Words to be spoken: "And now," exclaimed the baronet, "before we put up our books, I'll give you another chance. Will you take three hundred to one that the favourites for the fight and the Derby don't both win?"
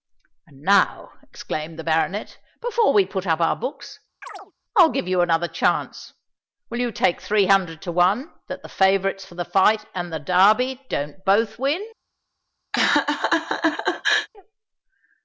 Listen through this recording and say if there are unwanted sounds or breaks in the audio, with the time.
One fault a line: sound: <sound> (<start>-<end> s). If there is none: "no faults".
sound: chirp (4.2-4.5 s)
sound: laugh (12.7-14.3 s)